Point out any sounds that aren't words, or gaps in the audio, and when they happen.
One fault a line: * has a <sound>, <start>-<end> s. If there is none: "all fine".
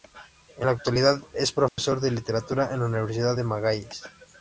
* has a dropout, 1.7-1.8 s